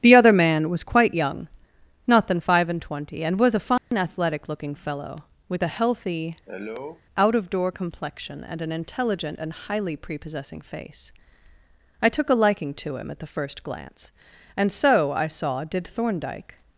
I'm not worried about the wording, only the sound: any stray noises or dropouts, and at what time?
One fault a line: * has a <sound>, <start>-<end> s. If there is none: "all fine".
* has a dropout, 3.8-3.9 s
* has a cough, 6.5-7.0 s